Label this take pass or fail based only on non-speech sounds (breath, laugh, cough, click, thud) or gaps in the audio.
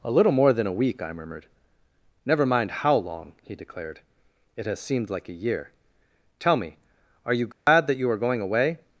fail